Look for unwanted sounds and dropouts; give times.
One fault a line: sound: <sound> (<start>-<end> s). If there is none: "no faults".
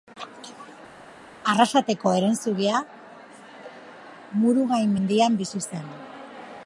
no faults